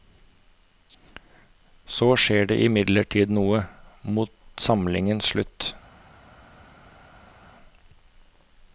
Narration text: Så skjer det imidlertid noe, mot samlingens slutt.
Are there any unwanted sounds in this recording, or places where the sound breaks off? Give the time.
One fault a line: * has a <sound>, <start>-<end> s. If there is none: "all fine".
all fine